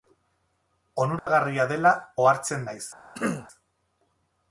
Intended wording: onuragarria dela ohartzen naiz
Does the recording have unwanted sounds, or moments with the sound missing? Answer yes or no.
yes